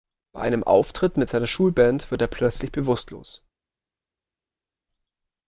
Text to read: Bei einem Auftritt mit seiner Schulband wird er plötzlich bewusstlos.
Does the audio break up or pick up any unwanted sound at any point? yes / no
no